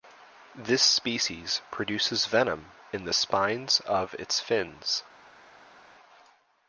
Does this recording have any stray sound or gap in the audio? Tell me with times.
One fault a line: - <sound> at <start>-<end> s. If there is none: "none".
none